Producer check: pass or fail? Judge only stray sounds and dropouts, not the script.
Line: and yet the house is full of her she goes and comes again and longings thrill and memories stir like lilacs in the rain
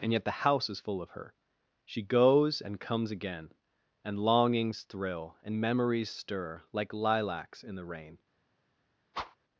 fail